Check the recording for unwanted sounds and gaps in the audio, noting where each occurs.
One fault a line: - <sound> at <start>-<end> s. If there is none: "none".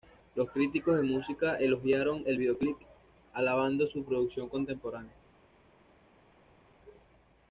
none